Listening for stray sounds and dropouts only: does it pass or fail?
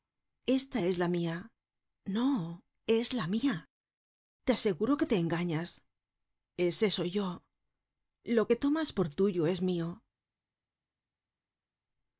pass